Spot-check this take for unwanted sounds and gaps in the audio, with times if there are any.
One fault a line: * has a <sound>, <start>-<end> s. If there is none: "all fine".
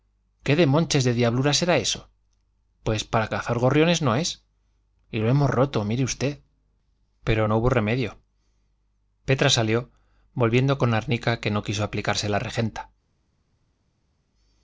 all fine